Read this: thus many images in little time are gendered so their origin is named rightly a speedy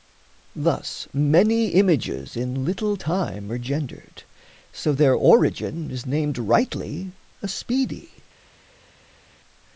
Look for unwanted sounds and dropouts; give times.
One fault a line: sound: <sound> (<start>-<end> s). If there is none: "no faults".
no faults